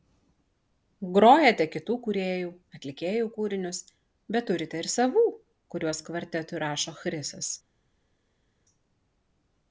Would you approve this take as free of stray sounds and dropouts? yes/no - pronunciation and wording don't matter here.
yes